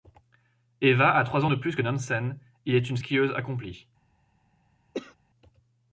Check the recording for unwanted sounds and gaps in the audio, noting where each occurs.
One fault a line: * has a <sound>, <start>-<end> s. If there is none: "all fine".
* has a cough, 4.9-5.2 s